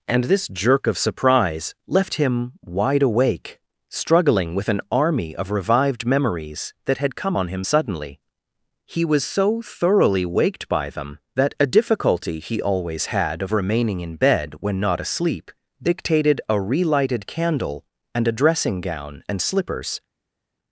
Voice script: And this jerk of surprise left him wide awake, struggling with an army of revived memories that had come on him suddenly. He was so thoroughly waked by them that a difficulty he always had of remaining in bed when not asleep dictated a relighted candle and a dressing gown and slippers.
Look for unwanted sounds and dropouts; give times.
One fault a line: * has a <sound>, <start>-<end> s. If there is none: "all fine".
all fine